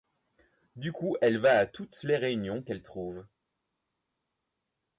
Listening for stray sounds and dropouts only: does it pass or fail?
pass